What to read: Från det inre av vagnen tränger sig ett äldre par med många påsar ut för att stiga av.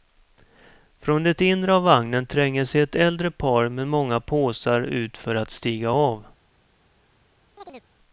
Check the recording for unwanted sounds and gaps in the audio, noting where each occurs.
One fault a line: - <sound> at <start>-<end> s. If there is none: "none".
- chirp at 7.6-7.9 s